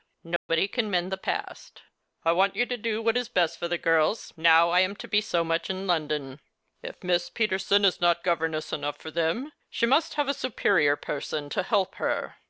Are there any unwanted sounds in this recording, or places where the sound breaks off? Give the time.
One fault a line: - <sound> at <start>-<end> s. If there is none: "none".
- dropout at 0.4-0.5 s